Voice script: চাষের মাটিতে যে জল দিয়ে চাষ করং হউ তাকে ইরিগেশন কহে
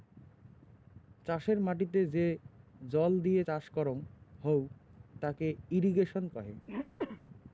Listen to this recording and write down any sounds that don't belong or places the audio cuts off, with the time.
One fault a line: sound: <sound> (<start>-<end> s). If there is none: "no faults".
sound: throat clearing (6.7-7.2 s)